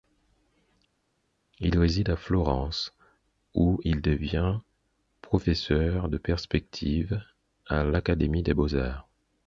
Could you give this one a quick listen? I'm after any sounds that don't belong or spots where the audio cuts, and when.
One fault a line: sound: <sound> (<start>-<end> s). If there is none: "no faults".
no faults